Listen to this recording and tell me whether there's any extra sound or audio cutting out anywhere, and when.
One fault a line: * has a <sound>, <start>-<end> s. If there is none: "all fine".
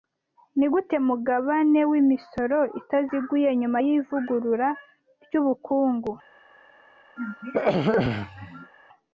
* has a throat clearing, 7.2-8.7 s